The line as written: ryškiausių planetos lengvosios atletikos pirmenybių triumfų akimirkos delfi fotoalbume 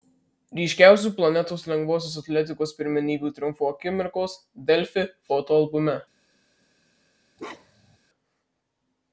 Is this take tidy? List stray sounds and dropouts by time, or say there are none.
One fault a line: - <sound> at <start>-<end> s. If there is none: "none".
- bark at 7.4-8.0 s